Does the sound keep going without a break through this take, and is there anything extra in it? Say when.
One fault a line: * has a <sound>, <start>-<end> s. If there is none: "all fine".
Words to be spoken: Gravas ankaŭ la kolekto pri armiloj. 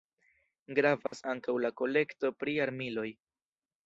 * has a dropout, 1.1-1.1 s